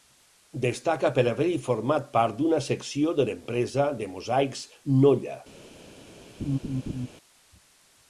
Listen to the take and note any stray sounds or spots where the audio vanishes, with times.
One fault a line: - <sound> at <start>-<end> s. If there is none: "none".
- laugh at 6.4-7.1 s